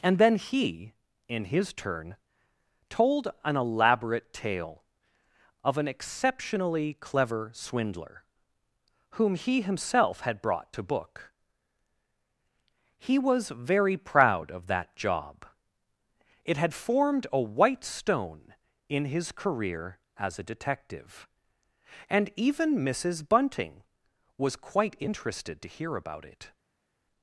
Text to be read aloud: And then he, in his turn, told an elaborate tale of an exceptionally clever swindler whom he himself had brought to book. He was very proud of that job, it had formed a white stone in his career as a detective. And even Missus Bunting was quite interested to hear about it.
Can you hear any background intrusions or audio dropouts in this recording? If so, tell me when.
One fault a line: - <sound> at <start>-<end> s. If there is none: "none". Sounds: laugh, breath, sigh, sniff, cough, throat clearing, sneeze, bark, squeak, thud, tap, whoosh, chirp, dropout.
none